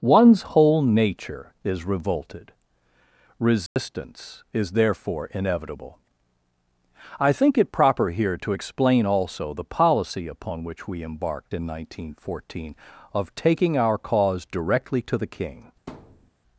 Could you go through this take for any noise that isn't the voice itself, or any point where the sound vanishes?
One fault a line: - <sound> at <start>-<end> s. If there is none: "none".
- dropout at 3.7-3.8 s
- thud at 15.9-16.3 s